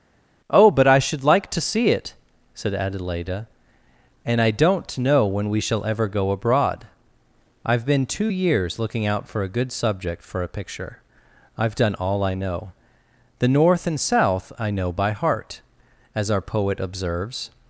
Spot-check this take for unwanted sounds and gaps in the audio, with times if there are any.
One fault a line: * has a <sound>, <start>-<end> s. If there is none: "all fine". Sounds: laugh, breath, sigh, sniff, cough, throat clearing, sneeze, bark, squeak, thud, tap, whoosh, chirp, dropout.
all fine